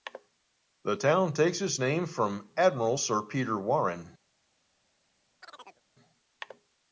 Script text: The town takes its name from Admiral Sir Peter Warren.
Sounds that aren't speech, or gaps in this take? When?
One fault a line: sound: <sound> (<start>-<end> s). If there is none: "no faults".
sound: chirp (5.4-5.8 s)